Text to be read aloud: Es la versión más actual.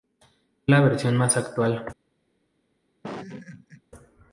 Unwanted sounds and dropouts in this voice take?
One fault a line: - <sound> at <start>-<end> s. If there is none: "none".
- laugh at 3.0-3.8 s